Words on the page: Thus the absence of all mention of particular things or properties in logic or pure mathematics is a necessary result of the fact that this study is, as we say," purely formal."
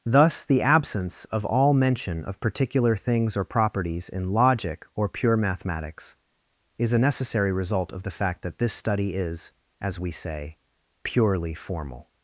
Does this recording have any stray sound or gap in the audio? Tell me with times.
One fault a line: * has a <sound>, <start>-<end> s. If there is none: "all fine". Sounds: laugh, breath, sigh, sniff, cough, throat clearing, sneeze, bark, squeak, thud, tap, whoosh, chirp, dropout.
all fine